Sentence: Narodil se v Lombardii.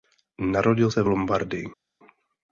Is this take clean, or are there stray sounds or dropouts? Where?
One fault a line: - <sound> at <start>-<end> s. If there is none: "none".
none